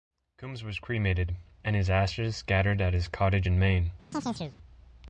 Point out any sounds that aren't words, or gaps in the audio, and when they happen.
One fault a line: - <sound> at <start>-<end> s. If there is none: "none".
- chirp at 4.1-4.6 s